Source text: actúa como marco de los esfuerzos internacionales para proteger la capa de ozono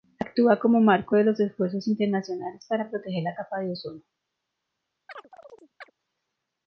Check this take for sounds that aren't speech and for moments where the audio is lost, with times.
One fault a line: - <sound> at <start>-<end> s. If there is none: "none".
- chirp at 5.1-5.9 s